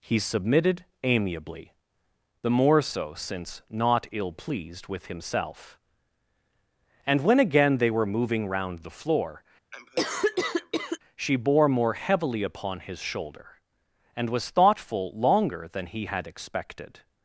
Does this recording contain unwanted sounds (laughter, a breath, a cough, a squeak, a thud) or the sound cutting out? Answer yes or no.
yes